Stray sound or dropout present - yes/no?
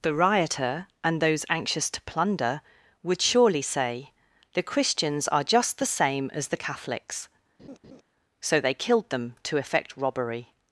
yes